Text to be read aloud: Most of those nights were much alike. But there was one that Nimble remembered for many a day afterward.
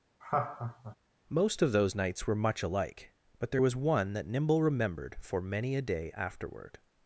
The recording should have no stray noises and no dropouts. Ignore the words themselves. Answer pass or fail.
fail